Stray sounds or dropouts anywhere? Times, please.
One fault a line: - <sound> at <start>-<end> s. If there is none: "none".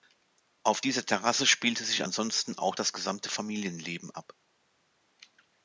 none